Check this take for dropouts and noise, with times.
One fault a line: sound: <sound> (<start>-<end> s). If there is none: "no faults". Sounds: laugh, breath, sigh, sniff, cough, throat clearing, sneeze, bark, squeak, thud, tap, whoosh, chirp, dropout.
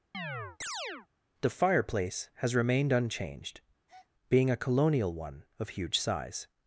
sound: chirp (0.1-1.1 s)
sound: breath (3.9-4.1 s)